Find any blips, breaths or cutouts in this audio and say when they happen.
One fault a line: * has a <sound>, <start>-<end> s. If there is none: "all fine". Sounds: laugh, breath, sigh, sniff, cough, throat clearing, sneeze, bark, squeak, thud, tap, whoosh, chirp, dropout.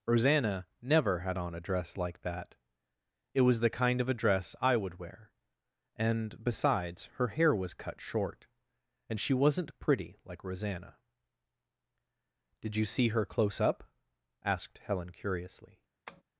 * has a tap, 16.1-16.2 s